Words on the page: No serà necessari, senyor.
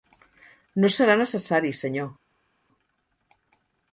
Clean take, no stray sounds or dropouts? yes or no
yes